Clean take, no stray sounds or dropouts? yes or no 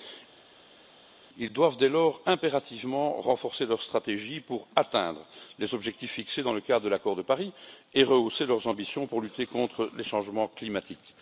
yes